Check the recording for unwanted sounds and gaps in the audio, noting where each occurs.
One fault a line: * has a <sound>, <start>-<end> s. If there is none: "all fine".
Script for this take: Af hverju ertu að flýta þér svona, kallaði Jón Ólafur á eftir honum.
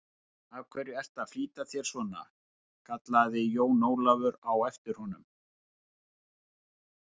all fine